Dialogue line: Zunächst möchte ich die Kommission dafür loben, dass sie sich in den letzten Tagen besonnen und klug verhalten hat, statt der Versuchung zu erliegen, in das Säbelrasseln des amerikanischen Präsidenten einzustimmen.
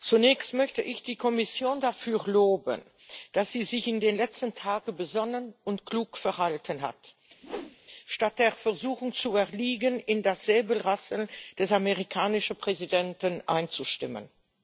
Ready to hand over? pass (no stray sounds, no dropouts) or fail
fail